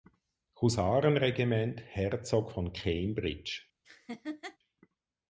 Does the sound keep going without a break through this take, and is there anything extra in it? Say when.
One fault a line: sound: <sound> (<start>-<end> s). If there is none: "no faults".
sound: laugh (3.8-4.6 s)